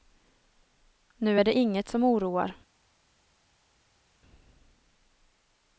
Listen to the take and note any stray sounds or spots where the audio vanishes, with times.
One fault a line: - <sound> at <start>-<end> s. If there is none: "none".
none